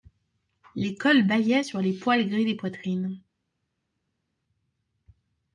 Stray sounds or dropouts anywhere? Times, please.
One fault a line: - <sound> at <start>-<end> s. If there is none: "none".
none